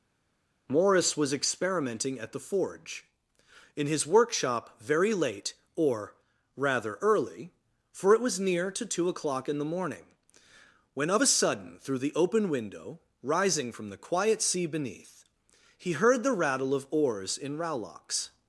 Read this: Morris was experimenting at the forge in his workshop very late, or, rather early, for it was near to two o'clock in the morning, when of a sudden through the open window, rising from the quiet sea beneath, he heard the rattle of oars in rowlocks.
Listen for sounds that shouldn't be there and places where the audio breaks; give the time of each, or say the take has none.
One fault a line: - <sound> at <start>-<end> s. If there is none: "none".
none